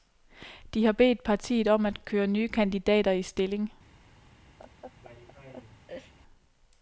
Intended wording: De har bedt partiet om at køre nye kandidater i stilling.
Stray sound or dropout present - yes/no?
yes